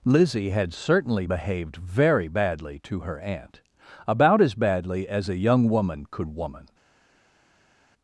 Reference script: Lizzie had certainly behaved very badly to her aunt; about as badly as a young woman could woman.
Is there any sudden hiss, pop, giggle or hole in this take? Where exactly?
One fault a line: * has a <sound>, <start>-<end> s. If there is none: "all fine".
all fine